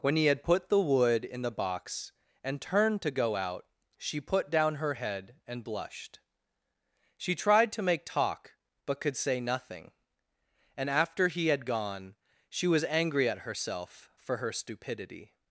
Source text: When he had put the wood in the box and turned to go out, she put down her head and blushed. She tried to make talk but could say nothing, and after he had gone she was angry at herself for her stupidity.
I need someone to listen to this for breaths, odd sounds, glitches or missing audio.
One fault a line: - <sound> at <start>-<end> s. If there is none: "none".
none